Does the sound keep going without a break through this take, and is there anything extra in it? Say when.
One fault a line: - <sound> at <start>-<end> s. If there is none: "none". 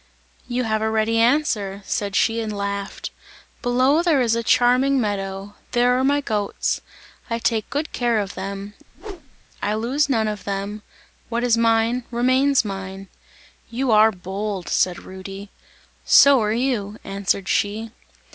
- whoosh at 8.9-9.4 s